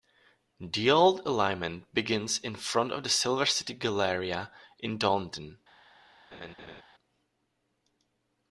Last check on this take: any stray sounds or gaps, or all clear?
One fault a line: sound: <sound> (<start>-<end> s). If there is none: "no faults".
sound: laugh (6.3-6.8 s)